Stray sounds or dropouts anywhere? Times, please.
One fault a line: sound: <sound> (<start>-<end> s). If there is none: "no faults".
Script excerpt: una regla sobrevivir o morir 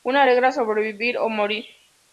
no faults